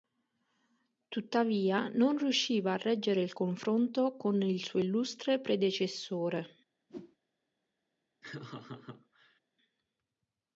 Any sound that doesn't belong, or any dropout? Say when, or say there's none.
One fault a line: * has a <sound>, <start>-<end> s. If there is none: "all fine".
* has a whoosh, 6.9-7.2 s
* has a laugh, 8.2-9.4 s